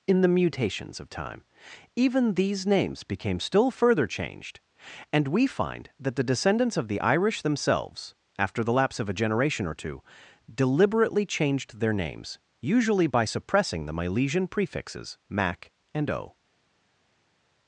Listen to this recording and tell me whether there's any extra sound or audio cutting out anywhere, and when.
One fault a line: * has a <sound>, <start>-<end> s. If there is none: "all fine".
all fine